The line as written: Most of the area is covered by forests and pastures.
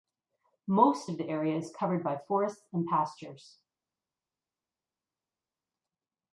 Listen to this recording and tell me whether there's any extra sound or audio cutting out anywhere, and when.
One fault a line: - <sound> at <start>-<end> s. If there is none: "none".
none